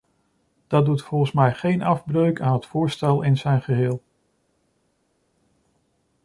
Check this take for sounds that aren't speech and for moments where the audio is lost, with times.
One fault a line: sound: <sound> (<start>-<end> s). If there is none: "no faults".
no faults